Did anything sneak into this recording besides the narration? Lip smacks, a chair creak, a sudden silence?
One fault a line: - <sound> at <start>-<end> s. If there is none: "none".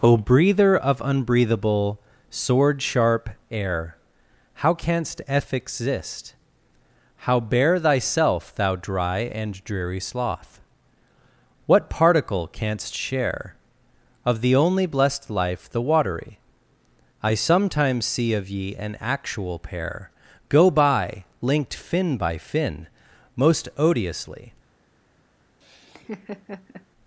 - laugh at 25.6-26.9 s